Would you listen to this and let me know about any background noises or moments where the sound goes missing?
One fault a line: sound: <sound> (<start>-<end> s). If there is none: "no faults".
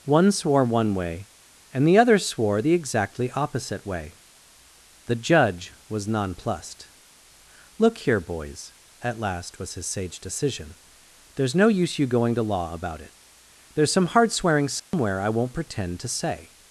sound: dropout (14.8-14.9 s)